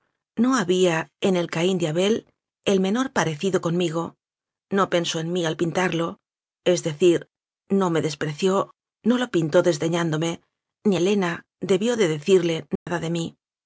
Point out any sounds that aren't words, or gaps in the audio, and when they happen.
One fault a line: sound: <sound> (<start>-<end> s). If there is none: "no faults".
sound: dropout (12.8-12.9 s)